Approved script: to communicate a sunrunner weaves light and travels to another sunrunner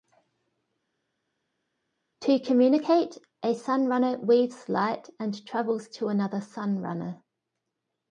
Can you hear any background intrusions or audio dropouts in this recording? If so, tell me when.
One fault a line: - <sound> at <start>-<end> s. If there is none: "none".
none